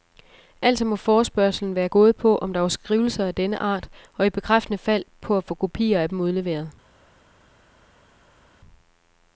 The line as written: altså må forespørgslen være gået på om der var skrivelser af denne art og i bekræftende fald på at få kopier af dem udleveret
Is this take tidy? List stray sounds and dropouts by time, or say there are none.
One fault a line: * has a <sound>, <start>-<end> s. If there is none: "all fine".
all fine